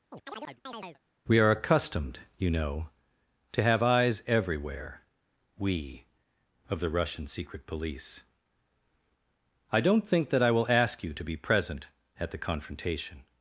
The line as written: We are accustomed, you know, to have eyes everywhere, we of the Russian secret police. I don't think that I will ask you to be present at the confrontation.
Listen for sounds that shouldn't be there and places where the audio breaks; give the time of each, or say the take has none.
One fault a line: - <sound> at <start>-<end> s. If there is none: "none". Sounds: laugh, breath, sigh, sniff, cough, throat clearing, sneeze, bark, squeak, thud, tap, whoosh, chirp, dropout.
- chirp at 0.1-1.0 s